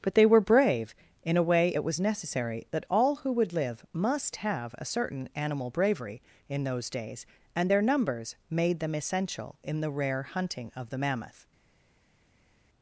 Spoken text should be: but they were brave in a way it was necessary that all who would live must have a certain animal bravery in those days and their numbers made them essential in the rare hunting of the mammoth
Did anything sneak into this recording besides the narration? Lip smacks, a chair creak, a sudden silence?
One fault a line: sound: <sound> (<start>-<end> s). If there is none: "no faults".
no faults